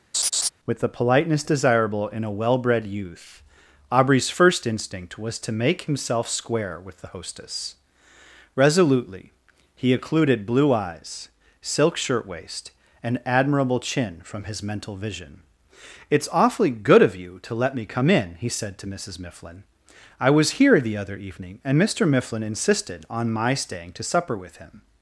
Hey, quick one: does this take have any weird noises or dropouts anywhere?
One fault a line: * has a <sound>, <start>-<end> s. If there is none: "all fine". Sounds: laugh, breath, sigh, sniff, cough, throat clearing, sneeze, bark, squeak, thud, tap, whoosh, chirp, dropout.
* has a laugh, 0.1-0.5 s